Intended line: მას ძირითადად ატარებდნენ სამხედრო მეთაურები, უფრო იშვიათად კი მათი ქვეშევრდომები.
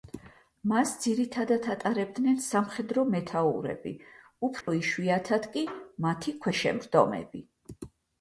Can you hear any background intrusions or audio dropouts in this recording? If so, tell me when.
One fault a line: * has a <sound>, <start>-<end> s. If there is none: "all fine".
* has a dropout, 4.6-4.7 s